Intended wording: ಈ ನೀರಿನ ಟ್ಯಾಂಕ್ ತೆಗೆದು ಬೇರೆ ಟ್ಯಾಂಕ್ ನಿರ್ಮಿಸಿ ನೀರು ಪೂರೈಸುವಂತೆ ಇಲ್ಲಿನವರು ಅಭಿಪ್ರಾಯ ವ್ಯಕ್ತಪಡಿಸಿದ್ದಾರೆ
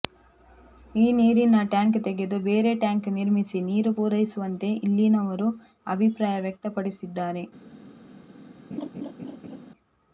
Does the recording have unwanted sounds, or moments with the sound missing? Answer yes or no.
yes